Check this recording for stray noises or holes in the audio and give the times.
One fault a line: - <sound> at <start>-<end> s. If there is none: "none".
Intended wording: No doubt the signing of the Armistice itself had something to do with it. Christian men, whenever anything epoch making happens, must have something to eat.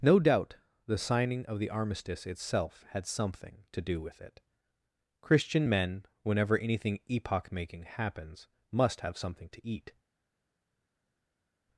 none